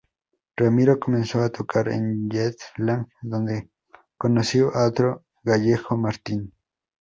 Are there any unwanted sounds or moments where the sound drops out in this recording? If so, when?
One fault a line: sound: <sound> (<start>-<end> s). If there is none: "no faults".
no faults